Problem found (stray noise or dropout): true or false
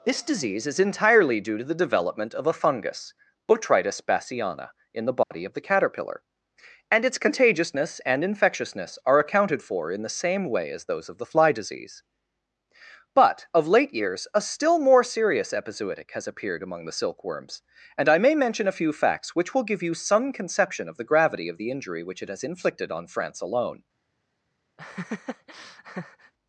true